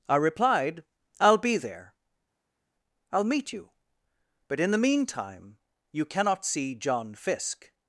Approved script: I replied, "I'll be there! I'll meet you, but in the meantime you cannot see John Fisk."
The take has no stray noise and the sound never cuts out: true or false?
true